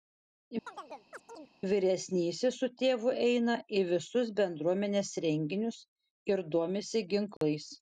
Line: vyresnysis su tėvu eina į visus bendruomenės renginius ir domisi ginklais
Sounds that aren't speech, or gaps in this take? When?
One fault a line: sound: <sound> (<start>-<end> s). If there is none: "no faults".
sound: chirp (0.7-1.5 s)
sound: dropout (7.4-7.4 s)